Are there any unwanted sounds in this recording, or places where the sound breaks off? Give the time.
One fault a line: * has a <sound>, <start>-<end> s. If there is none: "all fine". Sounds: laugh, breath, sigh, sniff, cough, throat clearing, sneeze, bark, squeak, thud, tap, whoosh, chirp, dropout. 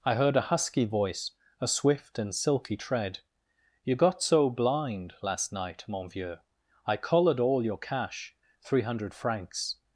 all fine